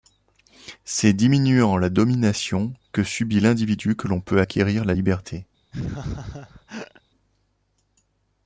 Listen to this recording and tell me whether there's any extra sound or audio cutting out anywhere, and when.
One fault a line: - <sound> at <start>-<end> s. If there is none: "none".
- laugh at 5.7-7.0 s